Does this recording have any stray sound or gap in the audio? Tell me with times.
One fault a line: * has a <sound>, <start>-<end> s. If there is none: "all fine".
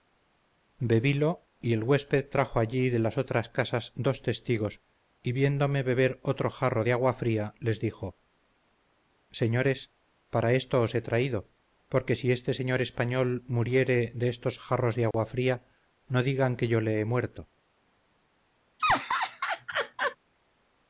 * has a dropout, 15.1-15.1 s
* has a laugh, 18.8-20.2 s